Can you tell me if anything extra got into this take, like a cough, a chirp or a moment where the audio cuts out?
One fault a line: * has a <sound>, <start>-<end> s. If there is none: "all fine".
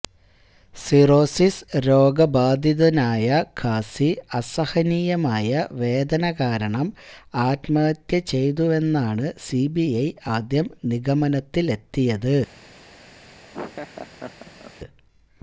* has a laugh, 13.5-14.7 s